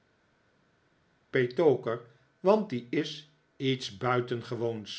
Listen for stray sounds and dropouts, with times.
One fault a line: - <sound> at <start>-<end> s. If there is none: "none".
none